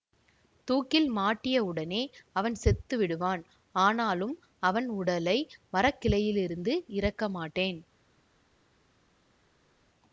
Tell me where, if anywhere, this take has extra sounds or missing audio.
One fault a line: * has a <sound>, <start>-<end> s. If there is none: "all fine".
all fine